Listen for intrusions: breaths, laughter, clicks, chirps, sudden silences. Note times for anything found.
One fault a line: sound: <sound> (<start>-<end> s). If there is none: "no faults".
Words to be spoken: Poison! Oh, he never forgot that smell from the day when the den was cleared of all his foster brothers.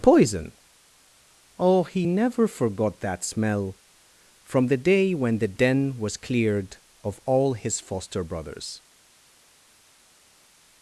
no faults